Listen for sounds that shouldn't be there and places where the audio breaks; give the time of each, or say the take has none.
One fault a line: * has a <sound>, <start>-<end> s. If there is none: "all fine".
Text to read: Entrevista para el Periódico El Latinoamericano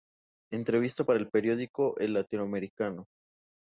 all fine